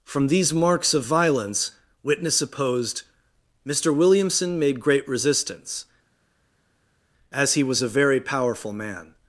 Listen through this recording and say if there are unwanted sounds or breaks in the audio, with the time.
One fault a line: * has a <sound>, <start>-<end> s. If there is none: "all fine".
all fine